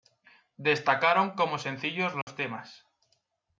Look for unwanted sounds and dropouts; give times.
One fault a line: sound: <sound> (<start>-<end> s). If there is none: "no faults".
sound: dropout (2.2-2.3 s)